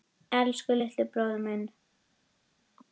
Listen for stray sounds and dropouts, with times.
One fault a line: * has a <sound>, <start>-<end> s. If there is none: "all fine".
all fine